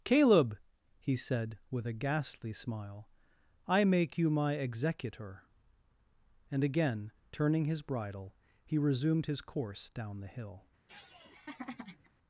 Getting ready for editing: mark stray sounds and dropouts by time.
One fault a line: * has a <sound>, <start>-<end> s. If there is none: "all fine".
* has a laugh, 10.9-12.1 s